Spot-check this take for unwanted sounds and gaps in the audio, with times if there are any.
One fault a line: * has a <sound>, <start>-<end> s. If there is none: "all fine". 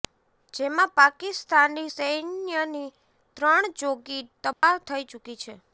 * has a dropout, 4.5-4.6 s